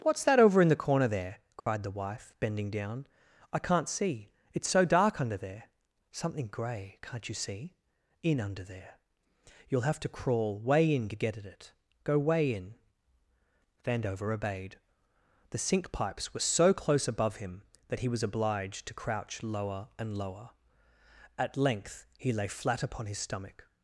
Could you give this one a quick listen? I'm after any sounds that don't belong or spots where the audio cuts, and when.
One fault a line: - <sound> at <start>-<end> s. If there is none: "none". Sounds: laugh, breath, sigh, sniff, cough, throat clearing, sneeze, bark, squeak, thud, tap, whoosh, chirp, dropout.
- dropout at 1.6-1.7 s